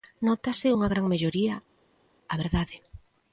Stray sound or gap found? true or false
false